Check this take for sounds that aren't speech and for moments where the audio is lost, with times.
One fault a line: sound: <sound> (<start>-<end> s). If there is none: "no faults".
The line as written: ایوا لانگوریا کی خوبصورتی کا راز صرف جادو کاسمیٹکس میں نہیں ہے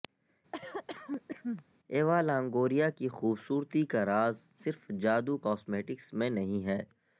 sound: cough (0.5-1.7 s)